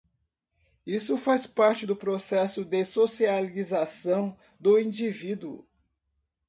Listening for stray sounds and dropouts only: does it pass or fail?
pass